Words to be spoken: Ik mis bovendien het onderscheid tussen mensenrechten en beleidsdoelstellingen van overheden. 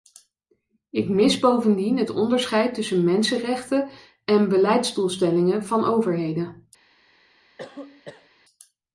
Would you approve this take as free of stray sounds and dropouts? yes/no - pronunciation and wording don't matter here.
no